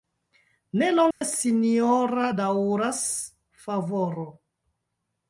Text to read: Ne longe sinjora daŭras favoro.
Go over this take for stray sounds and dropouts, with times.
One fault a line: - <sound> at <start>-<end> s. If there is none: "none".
- dropout at 1.1-1.2 s